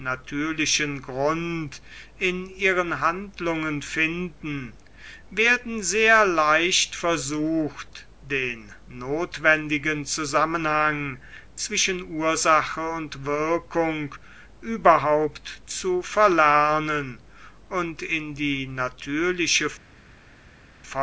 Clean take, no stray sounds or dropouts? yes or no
yes